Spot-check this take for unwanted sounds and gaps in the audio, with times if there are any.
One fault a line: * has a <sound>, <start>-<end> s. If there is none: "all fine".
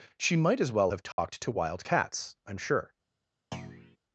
* has a dropout, 1.1-1.2 s
* has a thud, 3.5-4.0 s